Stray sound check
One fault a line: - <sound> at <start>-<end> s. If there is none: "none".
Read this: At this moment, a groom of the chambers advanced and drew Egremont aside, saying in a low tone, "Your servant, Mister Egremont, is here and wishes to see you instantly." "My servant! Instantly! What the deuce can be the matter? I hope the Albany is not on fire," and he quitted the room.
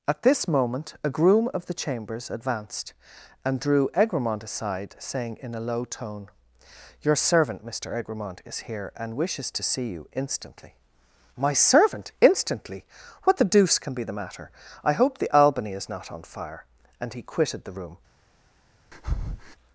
- breath at 18.9-19.6 s